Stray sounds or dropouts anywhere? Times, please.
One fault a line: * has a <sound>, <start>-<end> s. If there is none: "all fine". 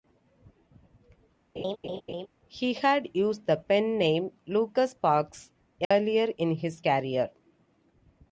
* has a laugh, 1.6-2.3 s
* has a dropout, 5.8-5.9 s